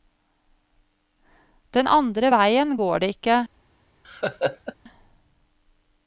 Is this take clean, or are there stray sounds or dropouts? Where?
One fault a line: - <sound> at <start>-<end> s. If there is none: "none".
- laugh at 4.0-4.7 s